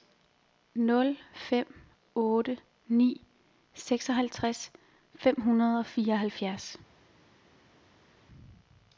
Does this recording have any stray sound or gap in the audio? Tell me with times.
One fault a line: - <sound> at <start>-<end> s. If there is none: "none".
none